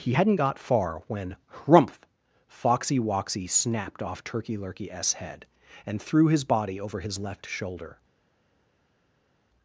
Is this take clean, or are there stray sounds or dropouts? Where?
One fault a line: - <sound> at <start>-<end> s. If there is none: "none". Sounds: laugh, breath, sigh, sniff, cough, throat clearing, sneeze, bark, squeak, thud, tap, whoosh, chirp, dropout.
none